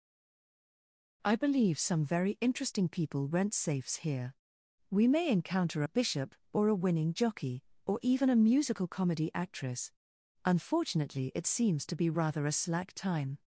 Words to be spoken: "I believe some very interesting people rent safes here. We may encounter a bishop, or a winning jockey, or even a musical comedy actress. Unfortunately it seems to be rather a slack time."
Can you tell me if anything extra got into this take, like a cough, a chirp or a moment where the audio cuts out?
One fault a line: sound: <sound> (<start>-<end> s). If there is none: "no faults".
no faults